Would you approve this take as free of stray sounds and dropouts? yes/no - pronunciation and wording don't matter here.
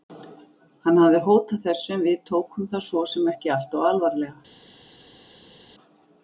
yes